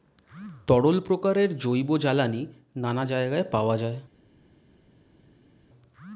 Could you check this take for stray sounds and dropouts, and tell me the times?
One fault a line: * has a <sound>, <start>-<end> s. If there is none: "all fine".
all fine